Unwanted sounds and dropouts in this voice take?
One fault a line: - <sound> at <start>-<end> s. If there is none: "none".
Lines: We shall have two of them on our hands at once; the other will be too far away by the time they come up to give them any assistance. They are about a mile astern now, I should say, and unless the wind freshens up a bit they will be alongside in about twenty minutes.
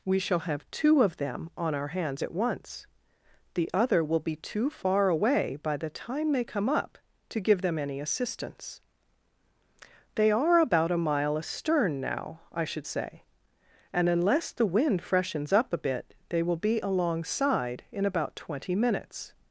none